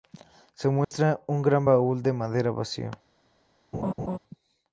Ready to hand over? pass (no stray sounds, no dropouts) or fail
fail